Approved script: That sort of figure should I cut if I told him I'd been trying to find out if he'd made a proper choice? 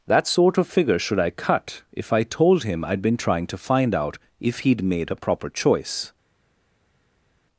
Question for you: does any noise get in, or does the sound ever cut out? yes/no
no